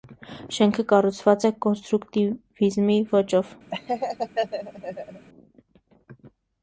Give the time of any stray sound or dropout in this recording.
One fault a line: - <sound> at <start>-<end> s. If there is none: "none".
- laugh at 3.7-5.3 s